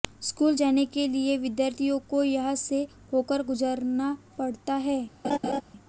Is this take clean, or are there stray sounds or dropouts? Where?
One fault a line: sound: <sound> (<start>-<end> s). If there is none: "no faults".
sound: laugh (5.2-5.6 s)